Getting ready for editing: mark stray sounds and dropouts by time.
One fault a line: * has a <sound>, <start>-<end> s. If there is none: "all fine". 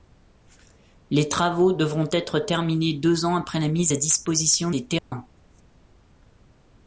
* has a dropout, 5.0-5.1 s